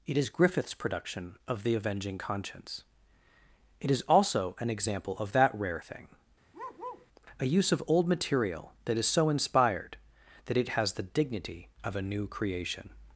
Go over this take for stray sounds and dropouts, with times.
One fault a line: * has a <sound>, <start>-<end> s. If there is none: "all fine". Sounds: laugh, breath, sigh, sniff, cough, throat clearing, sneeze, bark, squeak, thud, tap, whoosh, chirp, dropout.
* has a bark, 6.5-7.1 s